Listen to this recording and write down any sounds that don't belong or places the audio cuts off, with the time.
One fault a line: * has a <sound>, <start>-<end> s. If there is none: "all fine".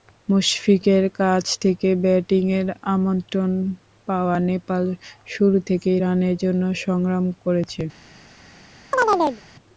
* has a chirp, 8.9-9.4 s